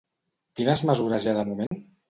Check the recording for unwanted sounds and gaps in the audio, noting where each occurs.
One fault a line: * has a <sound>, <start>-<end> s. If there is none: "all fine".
* has a dropout, 1.7-1.7 s